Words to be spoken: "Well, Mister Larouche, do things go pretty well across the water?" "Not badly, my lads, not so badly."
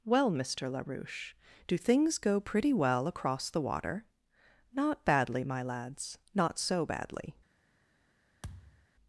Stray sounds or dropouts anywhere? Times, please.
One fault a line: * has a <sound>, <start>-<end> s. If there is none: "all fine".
* has a thud, 8.4-8.9 s